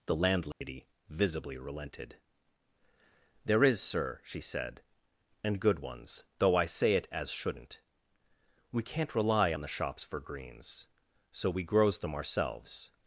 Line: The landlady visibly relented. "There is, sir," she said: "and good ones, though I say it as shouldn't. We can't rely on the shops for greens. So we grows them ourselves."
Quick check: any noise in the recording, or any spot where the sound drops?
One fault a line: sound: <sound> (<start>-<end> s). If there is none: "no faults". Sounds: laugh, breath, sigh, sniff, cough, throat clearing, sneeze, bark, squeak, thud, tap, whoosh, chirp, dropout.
sound: dropout (0.5-0.6 s)